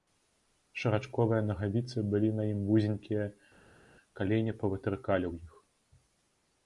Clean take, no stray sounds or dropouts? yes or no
yes